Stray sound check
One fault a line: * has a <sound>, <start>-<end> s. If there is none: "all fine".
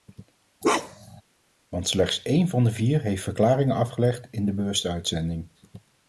* has a bark, 0.6-1.2 s